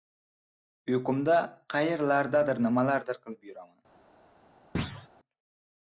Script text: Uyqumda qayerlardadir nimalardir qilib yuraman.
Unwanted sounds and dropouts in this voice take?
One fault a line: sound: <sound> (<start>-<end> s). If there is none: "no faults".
sound: thud (4.7-5.1 s)